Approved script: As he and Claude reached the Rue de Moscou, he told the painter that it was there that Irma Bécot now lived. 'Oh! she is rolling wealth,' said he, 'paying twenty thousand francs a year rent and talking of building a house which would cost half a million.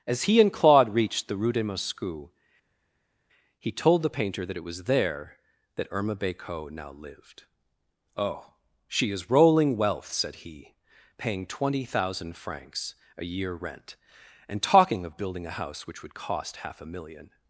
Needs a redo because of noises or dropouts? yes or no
no